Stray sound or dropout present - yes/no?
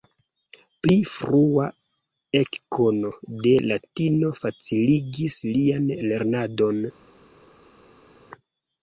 no